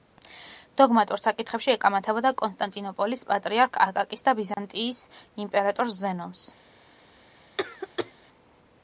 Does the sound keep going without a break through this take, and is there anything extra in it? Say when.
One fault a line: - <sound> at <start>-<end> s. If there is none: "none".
- dropout at 4.5-4.6 s
- cough at 7.6-8.1 s